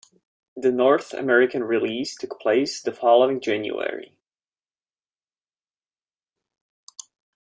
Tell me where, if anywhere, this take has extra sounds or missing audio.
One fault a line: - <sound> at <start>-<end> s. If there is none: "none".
none